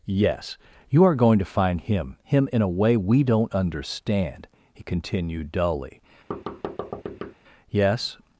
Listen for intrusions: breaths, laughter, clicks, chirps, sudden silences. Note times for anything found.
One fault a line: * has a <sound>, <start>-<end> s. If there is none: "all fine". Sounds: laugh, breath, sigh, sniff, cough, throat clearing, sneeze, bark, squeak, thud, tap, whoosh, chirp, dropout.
* has a thud, 6.3-7.3 s